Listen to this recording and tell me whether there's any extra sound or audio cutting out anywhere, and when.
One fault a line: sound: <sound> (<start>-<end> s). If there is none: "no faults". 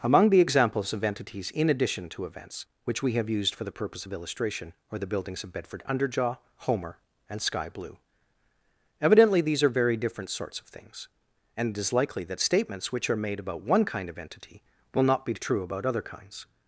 no faults